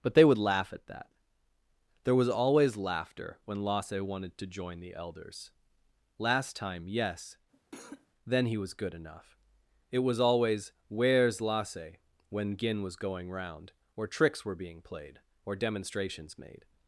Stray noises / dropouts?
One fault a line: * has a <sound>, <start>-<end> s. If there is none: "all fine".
* has a cough, 7.5-8.1 s